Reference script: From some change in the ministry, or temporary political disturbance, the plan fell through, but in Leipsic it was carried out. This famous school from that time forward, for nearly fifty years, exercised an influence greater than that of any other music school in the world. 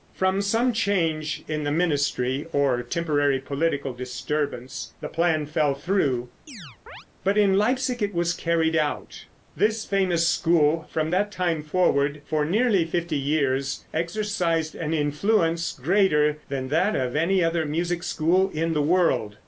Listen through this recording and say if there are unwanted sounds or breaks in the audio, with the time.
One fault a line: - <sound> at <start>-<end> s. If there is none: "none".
- chirp at 6.5-7.1 s